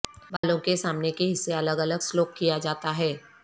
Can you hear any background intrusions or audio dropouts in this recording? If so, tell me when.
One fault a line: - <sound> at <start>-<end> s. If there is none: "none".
- dropout at 0.4-0.4 s